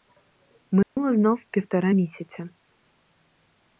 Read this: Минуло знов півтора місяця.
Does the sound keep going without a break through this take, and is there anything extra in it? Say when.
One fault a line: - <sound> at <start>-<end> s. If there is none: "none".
- dropout at 0.8-1.0 s